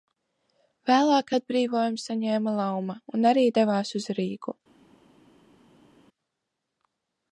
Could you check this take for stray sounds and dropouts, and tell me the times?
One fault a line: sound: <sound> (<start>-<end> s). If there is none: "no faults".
no faults